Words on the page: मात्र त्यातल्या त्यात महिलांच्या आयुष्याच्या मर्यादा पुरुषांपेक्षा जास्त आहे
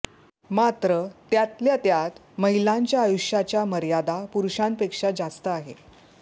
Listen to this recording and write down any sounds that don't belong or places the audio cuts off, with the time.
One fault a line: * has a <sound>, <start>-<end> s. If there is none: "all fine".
all fine